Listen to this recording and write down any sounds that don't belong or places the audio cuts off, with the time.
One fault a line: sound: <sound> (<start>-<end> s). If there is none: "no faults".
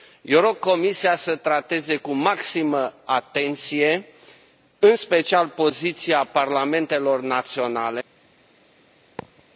sound: thud (9.2-9.5 s)